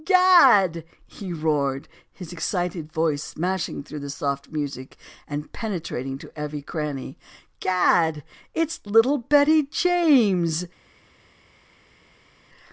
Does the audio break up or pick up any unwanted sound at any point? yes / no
no